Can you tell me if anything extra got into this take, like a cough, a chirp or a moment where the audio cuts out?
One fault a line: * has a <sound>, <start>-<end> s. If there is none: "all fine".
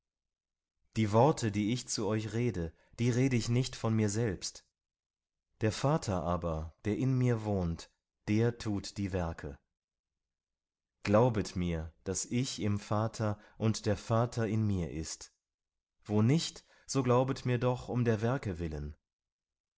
all fine